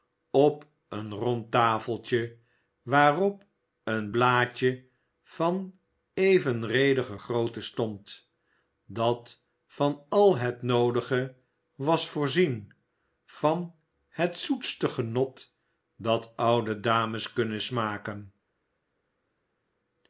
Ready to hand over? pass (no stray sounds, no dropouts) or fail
pass